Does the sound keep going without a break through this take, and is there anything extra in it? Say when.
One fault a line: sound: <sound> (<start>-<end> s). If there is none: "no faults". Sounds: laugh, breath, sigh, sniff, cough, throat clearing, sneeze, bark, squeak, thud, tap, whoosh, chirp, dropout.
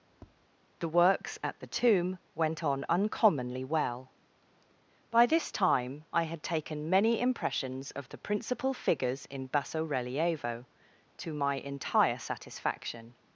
sound: tap (0.1-0.5 s)